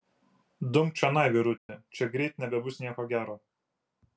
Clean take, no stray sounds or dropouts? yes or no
no